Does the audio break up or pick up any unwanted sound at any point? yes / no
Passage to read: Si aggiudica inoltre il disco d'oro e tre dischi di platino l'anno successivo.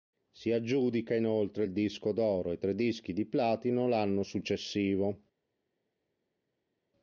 no